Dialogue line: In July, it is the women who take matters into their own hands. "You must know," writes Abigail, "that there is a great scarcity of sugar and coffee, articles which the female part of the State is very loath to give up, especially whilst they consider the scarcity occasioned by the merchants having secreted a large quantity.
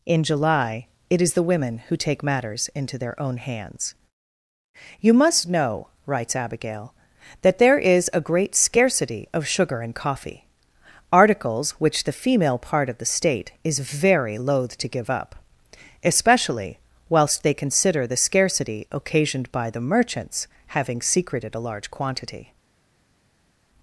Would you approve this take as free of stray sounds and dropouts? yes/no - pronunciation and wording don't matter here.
yes